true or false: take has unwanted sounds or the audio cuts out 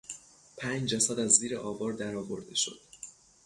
false